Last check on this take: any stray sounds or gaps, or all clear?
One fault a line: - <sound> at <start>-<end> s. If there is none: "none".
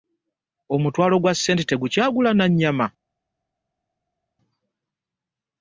none